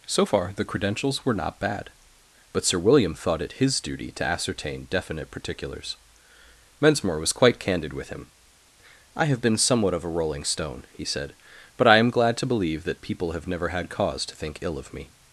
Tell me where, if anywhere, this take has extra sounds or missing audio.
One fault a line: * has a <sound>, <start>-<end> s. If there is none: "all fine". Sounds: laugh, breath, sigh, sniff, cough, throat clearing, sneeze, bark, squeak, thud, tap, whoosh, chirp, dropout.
all fine